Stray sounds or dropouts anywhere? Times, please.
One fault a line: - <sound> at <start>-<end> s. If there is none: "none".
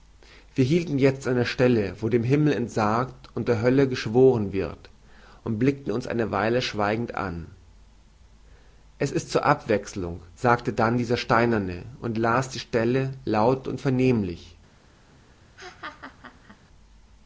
- laugh at 15.6-16.6 s